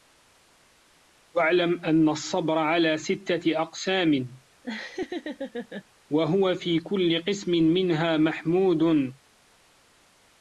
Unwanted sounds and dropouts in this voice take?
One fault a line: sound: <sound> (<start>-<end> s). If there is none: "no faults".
sound: laugh (4.6-5.8 s)